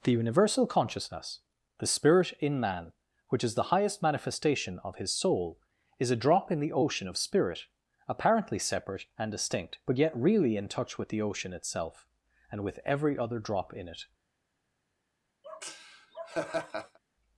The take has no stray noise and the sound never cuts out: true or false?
false